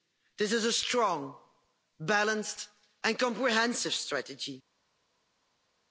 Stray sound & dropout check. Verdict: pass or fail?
pass